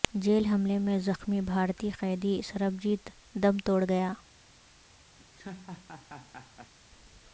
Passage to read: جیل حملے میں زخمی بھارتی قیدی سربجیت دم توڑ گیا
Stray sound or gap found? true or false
true